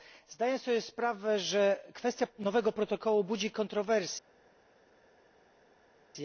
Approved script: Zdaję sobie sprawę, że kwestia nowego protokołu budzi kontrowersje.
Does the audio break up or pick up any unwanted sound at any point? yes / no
no